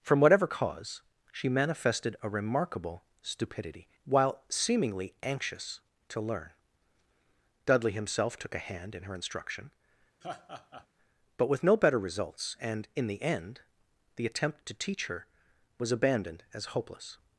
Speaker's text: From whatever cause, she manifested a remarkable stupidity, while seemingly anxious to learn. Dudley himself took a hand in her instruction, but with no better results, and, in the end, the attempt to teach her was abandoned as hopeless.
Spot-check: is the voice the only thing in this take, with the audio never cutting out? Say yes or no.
no